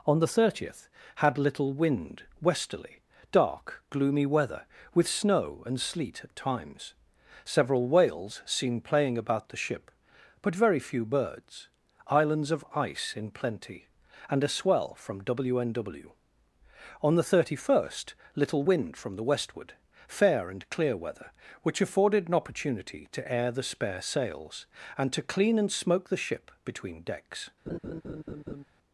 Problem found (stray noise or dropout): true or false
true